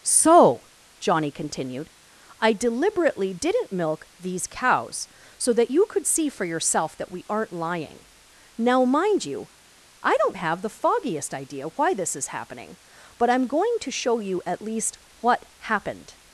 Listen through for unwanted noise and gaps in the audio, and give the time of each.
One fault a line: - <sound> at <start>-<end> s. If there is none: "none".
none